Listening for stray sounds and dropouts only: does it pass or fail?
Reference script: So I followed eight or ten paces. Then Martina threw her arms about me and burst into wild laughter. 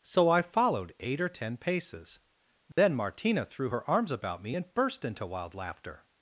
fail